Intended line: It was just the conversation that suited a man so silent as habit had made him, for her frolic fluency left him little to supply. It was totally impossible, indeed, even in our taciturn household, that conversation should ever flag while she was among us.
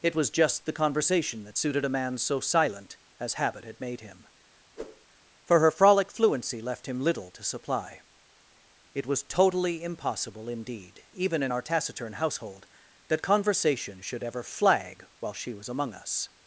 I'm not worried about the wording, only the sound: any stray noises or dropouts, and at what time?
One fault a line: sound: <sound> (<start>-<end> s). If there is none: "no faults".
sound: whoosh (4.8-5.0 s)